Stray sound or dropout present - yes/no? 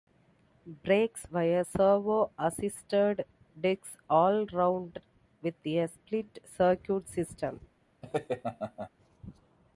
yes